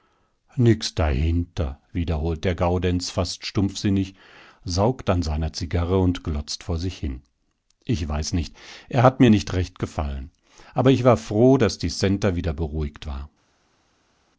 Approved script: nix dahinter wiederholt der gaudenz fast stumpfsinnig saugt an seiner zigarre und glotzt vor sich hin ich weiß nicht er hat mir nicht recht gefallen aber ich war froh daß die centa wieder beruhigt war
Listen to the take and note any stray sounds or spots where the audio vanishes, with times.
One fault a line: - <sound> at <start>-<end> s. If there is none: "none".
none